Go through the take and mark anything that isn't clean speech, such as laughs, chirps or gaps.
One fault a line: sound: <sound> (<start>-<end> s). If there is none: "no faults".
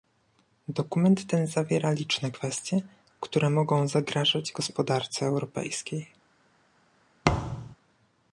sound: thud (7.2-7.8 s)